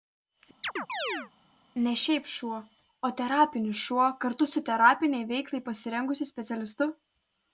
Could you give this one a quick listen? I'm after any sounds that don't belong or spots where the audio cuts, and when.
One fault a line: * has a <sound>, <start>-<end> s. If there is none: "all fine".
* has a chirp, 0.6-1.3 s